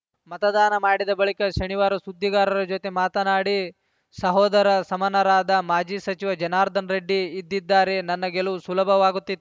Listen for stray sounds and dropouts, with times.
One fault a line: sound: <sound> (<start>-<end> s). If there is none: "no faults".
no faults